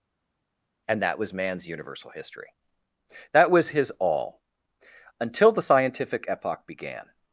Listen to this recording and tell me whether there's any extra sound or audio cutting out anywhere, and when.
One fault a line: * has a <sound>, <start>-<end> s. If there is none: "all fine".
all fine